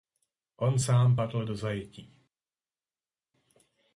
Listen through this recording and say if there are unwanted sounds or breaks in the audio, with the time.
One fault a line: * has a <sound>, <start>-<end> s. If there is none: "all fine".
all fine